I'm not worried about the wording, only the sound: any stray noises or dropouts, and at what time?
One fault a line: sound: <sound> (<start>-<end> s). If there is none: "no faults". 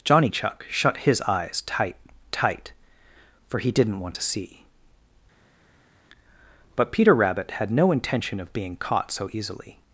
no faults